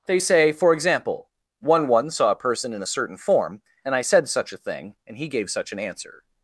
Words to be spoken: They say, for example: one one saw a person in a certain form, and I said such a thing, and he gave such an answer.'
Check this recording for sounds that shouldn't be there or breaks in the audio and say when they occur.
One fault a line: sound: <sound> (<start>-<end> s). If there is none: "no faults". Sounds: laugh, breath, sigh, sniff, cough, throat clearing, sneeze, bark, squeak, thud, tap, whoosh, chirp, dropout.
no faults